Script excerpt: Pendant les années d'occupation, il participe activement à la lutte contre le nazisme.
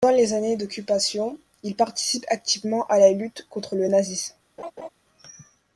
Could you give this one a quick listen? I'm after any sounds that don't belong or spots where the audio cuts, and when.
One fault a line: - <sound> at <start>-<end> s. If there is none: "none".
- laugh at 4.6-4.9 s